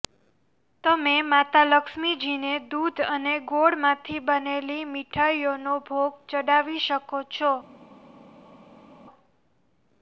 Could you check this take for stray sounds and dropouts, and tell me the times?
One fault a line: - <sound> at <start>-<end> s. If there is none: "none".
none